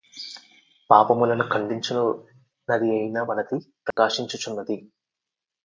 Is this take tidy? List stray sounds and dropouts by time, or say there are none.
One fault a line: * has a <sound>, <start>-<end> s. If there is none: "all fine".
* has a dropout, 3.9-4.0 s